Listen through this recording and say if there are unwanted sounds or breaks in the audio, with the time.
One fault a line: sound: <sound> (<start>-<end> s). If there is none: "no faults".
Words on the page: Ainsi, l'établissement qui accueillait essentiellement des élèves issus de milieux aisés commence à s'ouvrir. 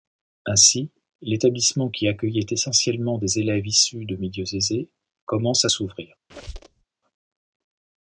sound: squeak (6.3-6.8 s)